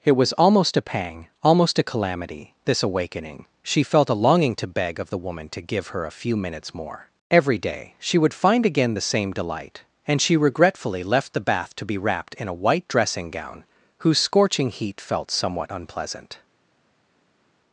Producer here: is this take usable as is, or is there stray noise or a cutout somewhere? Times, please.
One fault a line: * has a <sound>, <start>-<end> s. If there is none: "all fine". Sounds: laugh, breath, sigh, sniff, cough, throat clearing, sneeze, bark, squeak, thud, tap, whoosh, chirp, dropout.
all fine